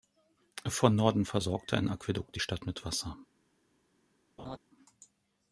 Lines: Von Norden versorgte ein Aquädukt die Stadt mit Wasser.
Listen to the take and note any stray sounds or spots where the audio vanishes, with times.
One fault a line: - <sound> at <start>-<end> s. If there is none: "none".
- laugh at 4.4-4.6 s